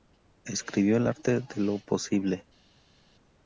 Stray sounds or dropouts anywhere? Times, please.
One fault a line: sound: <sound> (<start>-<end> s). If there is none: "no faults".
no faults